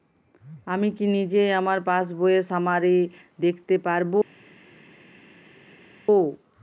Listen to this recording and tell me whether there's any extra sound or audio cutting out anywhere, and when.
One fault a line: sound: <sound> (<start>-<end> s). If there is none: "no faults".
no faults